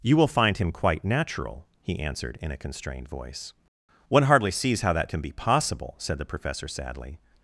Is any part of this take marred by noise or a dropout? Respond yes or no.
no